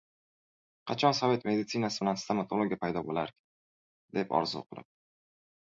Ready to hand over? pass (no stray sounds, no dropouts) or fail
pass